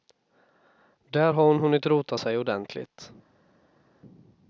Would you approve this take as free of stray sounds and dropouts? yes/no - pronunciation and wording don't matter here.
yes